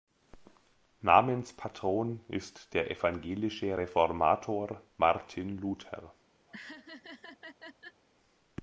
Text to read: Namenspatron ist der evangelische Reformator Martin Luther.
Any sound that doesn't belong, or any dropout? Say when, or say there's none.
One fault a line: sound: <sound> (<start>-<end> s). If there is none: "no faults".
sound: laugh (6.5-8.0 s)